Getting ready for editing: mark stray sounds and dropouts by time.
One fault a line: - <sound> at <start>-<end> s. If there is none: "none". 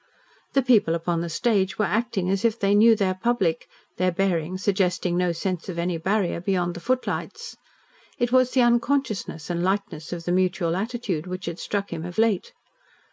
none